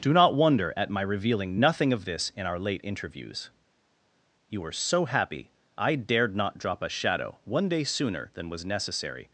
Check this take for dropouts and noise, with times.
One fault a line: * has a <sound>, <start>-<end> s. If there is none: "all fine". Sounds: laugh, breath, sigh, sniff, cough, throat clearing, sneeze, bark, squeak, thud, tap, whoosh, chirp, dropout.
all fine